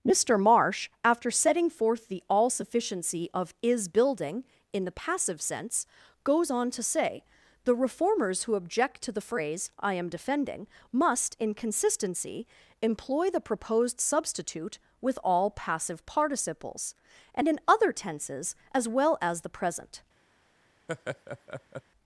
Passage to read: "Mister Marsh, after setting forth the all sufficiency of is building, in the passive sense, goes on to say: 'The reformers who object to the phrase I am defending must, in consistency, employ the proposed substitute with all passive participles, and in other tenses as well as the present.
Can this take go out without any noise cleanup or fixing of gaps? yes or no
no